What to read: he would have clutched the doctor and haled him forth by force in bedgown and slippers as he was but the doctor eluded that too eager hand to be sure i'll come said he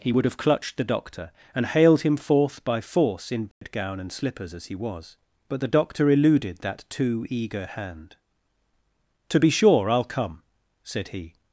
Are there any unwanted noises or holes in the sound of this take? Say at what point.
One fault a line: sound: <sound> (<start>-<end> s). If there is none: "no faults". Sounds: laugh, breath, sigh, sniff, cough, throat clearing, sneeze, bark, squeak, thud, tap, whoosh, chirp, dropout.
sound: dropout (3.5-3.6 s)